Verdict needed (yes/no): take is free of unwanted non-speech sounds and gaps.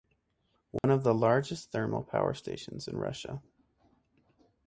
no